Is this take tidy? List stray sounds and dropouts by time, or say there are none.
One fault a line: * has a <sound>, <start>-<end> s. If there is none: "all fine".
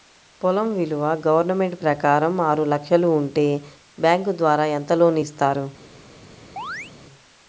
* has a chirp, 6.6-6.9 s